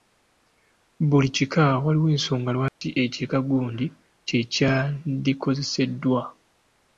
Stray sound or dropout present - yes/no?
yes